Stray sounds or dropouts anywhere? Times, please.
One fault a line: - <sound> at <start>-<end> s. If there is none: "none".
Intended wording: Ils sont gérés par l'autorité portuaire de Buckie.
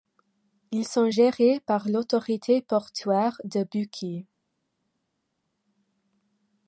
none